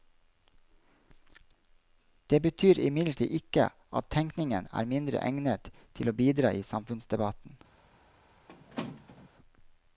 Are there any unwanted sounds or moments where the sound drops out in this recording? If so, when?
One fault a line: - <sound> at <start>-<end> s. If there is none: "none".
- squeak at 8.5-9.3 s